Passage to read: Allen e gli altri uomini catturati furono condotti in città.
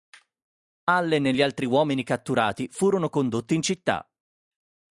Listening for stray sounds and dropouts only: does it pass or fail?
pass